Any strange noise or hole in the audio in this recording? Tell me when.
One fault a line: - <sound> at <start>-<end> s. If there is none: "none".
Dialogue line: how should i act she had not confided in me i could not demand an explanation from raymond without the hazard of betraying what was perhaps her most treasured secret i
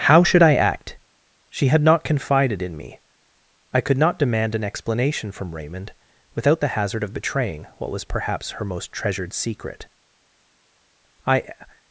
none